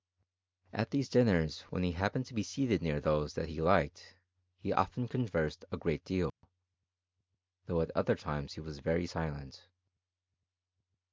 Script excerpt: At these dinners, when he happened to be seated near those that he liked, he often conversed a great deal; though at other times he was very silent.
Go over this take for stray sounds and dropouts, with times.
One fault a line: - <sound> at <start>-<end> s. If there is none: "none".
- dropout at 6.3-6.4 s